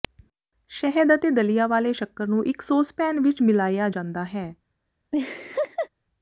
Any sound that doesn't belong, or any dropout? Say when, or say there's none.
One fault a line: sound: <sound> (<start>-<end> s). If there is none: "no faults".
sound: laugh (5.1-5.9 s)